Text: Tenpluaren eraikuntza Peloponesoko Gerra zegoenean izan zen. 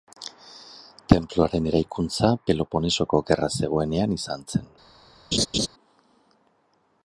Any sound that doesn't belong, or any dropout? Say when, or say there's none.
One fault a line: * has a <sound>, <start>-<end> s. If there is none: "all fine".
* has a laugh, 5.3-5.7 s